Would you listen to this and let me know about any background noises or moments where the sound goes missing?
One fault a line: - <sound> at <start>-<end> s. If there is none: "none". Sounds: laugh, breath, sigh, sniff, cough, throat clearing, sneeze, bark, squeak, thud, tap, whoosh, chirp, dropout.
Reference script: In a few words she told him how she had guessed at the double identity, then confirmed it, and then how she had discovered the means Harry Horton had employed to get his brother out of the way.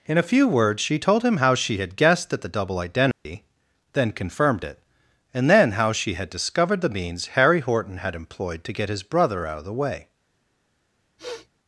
- dropout at 3.1-3.3 s
- sniff at 11.2-11.5 s